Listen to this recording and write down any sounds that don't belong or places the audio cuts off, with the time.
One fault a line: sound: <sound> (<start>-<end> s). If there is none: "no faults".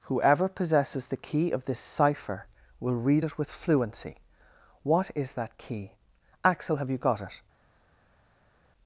no faults